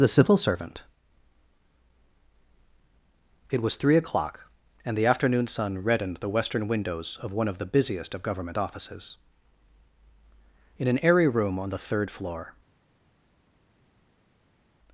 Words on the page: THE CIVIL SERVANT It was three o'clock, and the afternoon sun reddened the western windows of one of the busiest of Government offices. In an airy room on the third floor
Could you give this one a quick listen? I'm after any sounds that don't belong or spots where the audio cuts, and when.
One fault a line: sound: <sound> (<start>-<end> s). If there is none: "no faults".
no faults